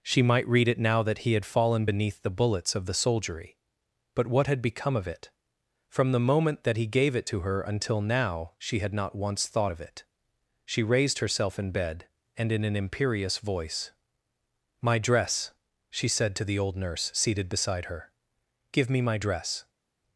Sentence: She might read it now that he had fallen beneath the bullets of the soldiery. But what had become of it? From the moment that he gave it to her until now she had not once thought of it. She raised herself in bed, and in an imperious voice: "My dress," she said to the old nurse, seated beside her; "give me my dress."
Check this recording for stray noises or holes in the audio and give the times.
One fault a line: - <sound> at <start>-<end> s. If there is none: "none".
none